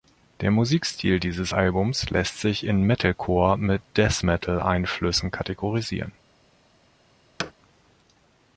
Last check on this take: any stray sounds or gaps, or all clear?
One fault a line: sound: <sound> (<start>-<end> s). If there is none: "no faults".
sound: thud (7.4-7.5 s)